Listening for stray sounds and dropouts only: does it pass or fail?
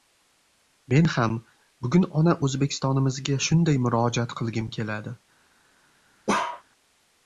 fail